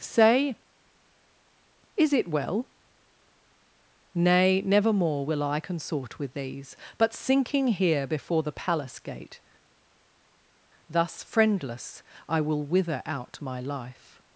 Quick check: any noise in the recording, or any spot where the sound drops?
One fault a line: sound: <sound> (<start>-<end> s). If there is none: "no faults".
no faults